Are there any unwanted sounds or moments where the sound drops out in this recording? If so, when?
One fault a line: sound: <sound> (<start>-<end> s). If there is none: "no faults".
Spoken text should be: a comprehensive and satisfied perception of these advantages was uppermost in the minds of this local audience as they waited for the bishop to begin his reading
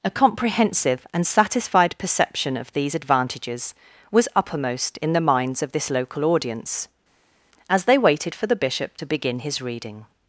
no faults